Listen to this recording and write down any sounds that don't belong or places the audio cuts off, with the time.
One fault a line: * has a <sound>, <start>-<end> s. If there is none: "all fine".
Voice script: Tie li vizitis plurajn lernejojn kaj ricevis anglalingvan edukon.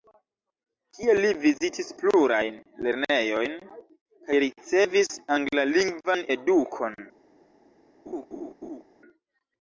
* has a laugh, 8.1-8.8 s